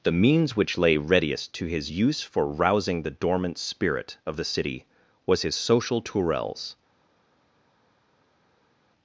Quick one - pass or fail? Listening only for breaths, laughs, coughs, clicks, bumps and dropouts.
pass